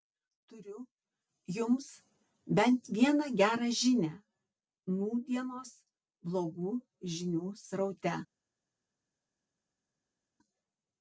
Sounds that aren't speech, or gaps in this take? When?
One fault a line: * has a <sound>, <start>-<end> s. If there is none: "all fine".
all fine